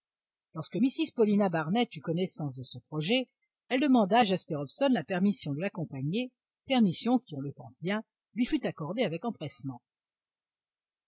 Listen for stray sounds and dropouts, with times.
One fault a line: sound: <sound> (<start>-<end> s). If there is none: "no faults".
no faults